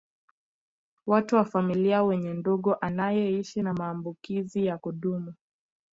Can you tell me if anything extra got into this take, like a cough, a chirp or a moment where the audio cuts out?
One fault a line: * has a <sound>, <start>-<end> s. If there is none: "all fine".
all fine